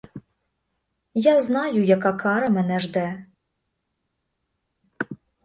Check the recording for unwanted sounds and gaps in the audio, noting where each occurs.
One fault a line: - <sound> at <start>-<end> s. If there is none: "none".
none